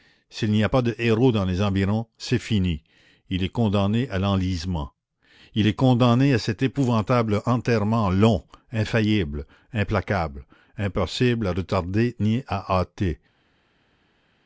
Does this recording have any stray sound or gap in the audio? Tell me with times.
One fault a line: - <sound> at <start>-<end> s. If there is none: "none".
none